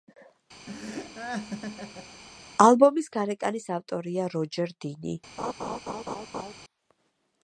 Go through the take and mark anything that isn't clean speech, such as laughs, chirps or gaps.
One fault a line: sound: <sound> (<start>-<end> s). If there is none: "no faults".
sound: laugh (0.7-2.2 s)
sound: laugh (5.4-6.5 s)